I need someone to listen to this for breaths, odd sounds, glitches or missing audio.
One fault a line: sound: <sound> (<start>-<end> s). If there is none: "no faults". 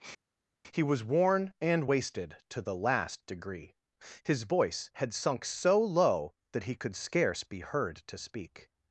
no faults